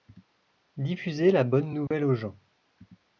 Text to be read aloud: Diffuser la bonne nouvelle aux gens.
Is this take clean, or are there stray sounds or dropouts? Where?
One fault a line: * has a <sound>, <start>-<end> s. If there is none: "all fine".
* has a dropout, 1.9-1.9 s